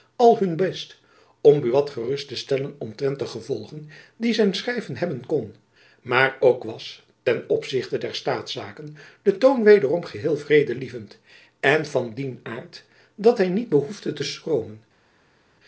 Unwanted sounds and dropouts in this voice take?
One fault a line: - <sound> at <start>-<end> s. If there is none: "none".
none